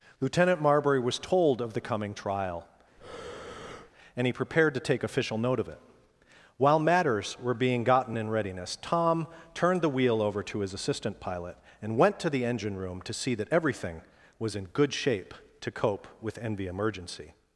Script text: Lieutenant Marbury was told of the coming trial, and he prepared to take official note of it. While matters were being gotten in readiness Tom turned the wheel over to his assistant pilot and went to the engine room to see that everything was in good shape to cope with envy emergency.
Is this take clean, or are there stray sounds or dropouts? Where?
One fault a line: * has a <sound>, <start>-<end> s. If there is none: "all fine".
* has a breath, 3.0-3.9 s